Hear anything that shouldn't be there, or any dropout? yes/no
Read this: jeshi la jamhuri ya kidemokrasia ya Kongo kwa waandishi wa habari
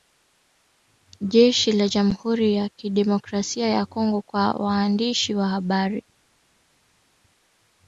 no